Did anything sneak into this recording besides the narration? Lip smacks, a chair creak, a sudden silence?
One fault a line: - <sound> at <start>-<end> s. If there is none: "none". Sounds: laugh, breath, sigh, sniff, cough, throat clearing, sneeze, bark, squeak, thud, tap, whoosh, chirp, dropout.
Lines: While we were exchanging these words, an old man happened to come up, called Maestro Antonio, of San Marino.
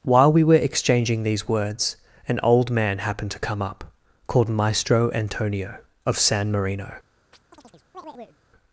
- chirp at 7.3-8.4 s